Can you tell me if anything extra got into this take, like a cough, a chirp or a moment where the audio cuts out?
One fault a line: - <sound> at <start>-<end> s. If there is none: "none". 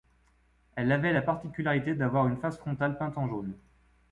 none